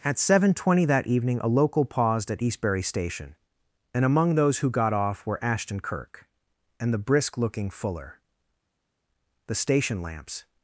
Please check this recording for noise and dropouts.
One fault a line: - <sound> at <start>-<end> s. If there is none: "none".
none